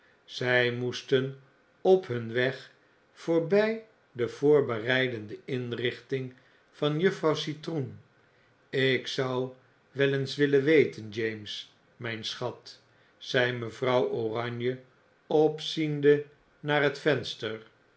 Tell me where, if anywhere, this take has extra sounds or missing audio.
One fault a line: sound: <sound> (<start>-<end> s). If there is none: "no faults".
no faults